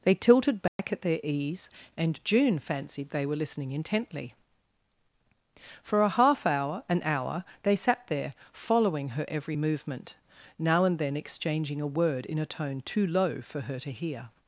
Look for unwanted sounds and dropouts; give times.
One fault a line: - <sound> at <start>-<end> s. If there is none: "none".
- dropout at 0.7-0.8 s